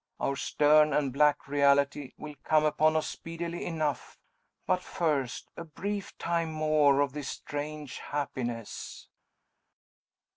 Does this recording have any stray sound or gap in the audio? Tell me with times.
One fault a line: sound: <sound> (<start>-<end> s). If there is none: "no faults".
no faults